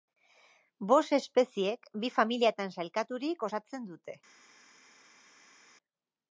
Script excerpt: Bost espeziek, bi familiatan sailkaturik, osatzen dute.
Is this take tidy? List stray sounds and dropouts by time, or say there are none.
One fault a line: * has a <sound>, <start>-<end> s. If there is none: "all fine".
all fine